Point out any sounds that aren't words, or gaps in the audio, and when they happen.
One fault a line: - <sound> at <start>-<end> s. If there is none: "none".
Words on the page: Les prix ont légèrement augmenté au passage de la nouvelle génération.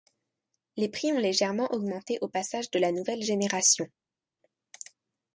none